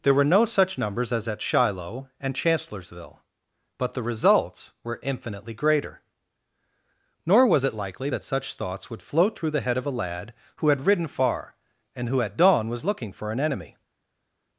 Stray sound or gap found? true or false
false